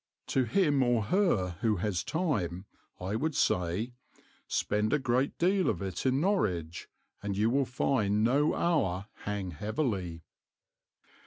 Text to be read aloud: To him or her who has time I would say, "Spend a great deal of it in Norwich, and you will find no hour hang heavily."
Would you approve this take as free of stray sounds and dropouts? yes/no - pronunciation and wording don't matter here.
yes